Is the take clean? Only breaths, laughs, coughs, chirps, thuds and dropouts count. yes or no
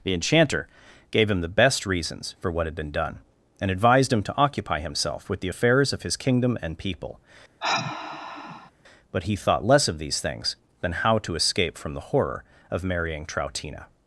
no